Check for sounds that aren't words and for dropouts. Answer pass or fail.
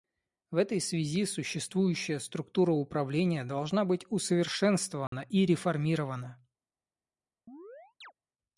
fail